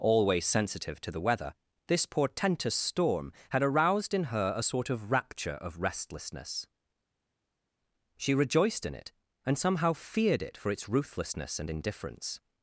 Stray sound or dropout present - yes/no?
no